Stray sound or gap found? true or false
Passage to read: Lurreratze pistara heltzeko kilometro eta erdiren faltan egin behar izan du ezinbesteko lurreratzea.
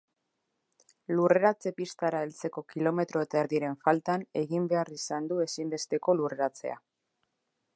false